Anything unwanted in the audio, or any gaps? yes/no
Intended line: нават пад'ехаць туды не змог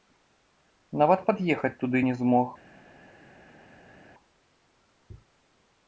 no